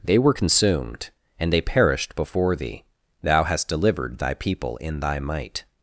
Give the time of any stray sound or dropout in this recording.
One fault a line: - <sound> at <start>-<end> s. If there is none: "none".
none